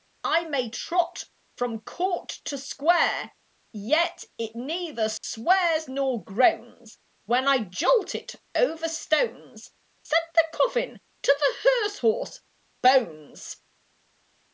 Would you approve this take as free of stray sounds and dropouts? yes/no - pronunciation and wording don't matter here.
no